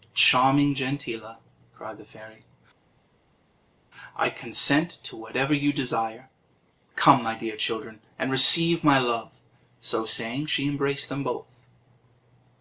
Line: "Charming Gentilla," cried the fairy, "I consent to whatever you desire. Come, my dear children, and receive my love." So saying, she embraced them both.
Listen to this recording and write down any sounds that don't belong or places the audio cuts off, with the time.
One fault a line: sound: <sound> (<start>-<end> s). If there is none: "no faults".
no faults